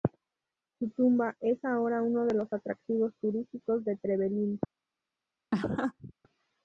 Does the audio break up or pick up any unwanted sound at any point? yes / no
yes